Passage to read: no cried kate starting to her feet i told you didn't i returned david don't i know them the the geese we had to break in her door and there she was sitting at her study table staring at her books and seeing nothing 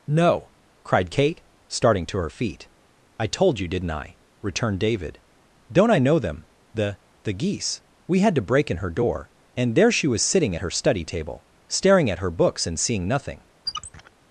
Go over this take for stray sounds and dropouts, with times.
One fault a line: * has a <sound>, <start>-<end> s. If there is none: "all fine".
* has a squeak, 13.7-14.1 s